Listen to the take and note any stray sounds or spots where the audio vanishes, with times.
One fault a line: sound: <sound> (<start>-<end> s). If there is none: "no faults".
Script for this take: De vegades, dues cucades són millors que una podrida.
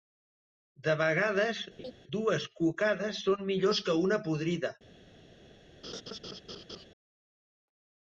sound: laugh (1.8-1.9 s)
sound: laugh (5.8-6.9 s)